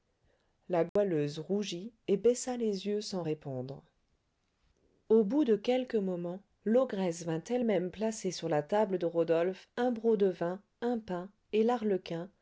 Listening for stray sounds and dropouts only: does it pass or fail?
fail